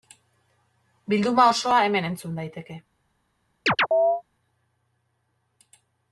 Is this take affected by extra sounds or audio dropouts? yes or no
yes